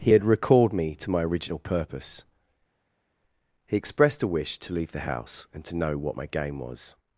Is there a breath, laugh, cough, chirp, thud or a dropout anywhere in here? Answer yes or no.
no